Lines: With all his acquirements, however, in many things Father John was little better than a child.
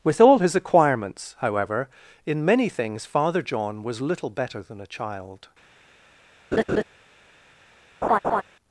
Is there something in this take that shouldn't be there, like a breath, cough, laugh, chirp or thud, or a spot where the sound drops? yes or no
yes